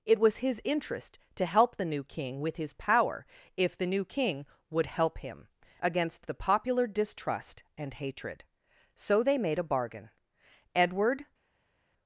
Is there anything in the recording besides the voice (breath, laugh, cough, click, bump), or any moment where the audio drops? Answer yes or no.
no